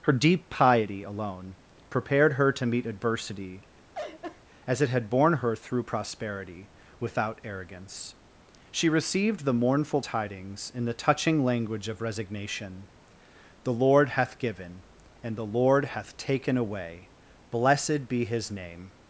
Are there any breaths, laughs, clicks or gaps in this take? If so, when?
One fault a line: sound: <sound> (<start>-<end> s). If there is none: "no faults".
sound: laugh (3.9-4.4 s)